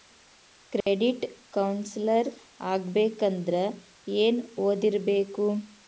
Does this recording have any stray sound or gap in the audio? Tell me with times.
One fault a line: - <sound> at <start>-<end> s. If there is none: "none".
- dropout at 0.8-0.9 s